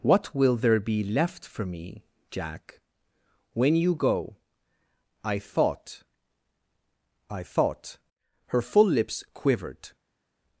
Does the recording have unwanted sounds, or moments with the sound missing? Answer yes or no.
no